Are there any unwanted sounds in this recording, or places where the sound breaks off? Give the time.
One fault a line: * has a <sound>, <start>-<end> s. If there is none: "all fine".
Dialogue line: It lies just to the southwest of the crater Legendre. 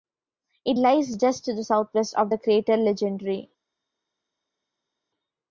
all fine